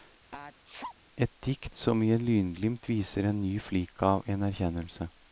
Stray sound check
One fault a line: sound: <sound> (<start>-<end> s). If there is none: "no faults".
sound: sneeze (0.3-1.0 s)